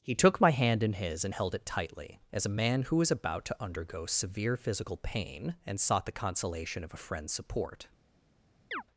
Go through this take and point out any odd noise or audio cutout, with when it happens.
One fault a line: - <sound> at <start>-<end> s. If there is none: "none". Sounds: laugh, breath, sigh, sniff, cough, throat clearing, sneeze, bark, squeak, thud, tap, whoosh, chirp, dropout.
- chirp at 8.7-8.8 s